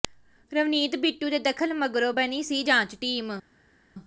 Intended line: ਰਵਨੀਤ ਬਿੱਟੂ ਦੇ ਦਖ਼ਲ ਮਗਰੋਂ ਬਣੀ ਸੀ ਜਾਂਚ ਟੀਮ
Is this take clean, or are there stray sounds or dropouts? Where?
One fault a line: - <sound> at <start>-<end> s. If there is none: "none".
none